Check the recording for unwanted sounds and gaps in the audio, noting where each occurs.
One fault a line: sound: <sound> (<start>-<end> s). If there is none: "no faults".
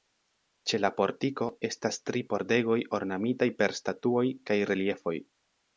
no faults